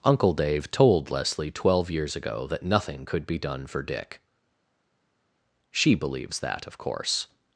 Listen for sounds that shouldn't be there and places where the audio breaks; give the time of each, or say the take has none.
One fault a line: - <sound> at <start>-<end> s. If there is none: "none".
none